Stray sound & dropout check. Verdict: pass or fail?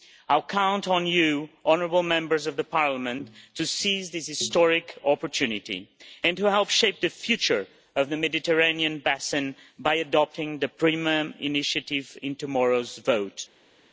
pass